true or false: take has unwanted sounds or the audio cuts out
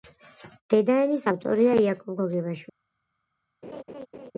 true